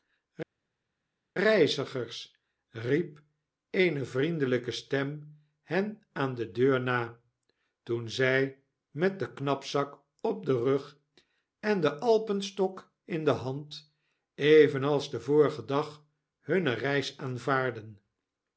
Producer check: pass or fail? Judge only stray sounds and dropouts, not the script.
pass